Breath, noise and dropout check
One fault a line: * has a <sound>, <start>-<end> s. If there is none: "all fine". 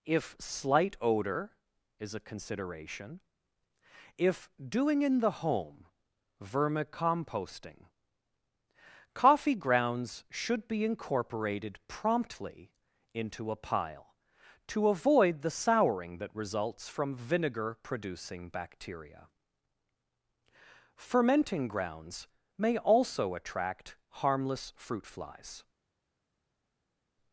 all fine